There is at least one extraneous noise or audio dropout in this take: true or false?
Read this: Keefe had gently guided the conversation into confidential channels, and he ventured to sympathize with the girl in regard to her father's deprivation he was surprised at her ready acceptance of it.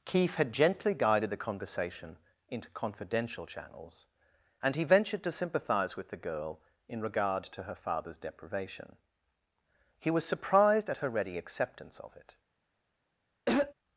true